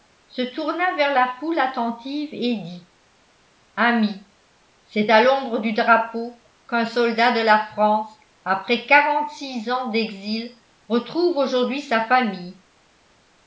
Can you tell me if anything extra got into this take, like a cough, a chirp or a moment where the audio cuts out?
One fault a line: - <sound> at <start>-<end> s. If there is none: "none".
none